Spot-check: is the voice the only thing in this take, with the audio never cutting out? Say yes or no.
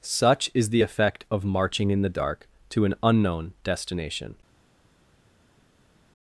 yes